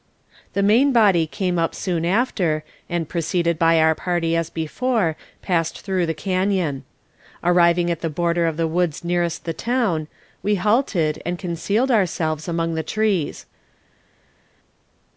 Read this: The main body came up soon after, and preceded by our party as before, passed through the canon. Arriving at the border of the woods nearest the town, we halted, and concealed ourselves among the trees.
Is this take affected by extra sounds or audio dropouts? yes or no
no